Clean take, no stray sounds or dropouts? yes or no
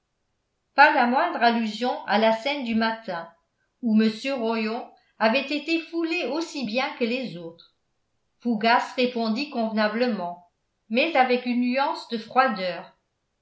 yes